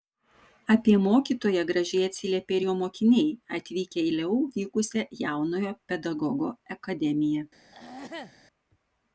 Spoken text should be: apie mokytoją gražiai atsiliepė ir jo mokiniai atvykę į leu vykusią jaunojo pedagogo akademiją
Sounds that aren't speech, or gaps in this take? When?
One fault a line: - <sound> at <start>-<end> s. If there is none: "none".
- throat clearing at 7.7-8.3 s